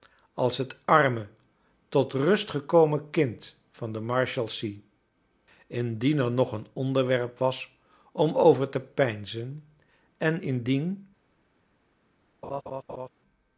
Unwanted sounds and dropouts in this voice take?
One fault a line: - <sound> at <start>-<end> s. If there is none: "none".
- laugh at 12.4-13.1 s